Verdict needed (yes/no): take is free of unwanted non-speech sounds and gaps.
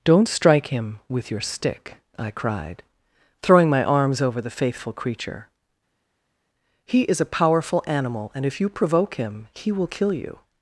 yes